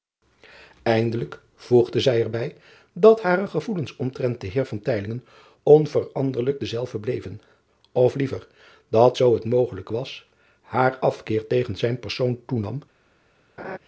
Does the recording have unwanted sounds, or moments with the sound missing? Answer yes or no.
yes